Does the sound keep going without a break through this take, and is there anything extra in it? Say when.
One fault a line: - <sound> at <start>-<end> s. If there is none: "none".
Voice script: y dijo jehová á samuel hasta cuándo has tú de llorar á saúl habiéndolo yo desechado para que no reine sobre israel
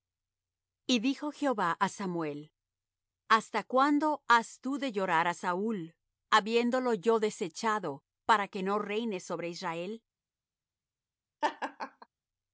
- laugh at 11.4-12.1 s